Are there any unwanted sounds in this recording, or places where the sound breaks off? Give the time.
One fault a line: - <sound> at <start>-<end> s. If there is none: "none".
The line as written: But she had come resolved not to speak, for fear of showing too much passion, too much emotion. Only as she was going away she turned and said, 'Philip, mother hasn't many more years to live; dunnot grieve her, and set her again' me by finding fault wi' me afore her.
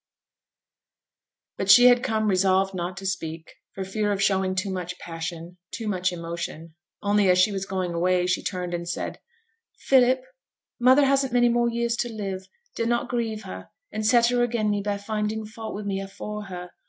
none